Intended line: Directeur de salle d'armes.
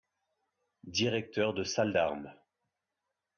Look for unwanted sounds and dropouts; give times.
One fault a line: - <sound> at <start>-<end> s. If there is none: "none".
none